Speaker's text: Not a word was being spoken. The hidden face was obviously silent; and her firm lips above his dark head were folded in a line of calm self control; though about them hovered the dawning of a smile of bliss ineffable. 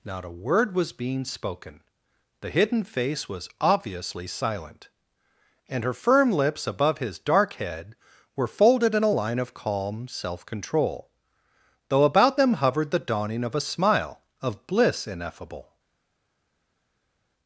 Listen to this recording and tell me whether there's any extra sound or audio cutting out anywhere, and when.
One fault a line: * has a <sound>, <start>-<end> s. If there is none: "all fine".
all fine